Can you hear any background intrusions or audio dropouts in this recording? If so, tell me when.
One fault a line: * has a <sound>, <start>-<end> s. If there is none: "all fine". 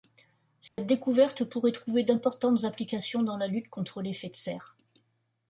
* has a dropout, 0.7-0.8 s